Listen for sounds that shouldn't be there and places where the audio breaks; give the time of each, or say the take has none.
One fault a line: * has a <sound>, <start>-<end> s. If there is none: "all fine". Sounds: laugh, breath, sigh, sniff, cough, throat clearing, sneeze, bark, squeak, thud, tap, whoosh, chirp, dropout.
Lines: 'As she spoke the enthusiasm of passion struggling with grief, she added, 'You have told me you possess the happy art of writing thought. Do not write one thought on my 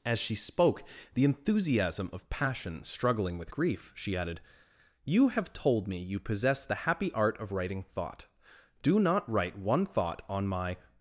all fine